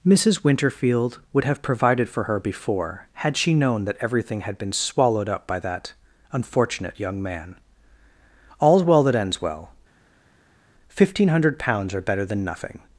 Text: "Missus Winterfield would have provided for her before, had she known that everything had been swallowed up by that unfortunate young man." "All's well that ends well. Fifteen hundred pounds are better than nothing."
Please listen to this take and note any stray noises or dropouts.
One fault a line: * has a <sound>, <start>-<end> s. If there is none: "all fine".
all fine